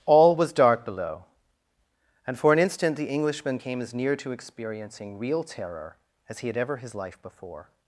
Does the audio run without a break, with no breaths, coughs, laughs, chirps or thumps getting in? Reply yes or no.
yes